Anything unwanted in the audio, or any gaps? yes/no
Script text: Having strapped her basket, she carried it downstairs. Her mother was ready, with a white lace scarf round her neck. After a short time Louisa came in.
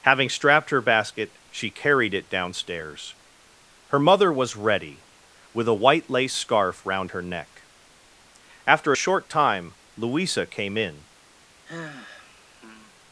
yes